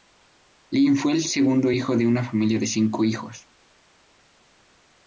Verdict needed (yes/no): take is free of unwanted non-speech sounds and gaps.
yes